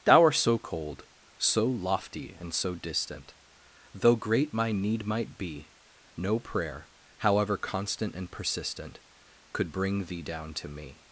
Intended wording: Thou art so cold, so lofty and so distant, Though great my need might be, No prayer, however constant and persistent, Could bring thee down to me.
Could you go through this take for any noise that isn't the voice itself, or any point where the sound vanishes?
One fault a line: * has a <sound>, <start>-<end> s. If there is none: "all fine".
all fine